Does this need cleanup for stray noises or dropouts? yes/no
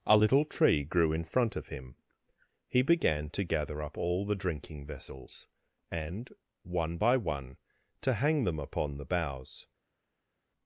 no